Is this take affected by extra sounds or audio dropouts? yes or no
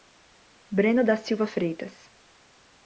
no